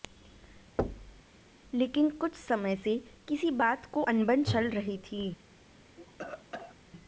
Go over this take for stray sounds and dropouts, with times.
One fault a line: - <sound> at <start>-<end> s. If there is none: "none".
- thud at 0.8-1.2 s
- cough at 6.0-6.8 s